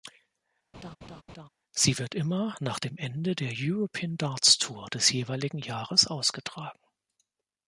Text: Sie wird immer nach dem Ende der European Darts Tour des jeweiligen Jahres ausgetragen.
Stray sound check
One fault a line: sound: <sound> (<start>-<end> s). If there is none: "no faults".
sound: laugh (0.7-1.5 s)